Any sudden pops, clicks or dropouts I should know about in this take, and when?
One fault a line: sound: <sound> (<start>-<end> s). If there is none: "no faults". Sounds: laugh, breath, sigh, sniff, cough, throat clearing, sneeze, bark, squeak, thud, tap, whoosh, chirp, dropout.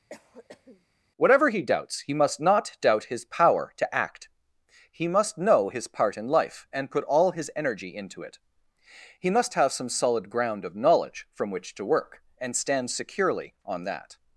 sound: cough (0.1-0.9 s)